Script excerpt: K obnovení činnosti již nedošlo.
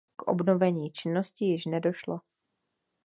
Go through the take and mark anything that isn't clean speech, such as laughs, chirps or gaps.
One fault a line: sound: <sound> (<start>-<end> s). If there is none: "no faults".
no faults